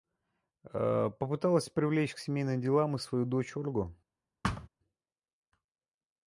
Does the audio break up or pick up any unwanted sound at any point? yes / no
yes